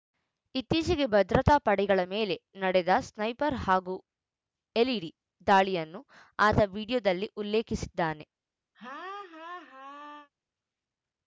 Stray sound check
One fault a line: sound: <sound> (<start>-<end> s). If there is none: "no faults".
sound: laugh (8.7-10.3 s)